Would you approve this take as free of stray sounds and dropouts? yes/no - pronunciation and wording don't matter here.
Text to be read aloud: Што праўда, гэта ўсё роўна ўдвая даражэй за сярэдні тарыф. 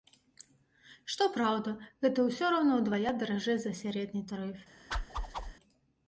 no